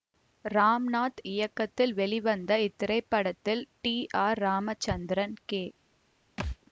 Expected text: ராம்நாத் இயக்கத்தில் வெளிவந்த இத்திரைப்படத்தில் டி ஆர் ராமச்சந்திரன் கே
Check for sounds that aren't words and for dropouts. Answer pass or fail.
fail